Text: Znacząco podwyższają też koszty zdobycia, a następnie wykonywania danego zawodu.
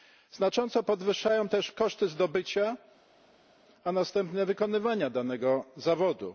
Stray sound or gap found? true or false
false